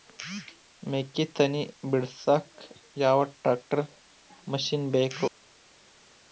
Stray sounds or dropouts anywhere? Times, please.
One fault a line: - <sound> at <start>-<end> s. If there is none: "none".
none